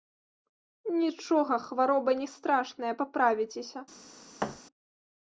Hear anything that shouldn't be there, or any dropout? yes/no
yes